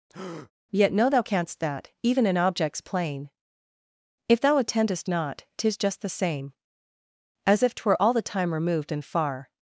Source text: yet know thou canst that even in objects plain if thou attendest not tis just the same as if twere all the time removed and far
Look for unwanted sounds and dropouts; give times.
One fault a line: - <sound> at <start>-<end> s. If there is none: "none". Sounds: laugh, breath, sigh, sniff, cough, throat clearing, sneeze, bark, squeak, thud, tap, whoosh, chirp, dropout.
- breath at 0.1-0.5 s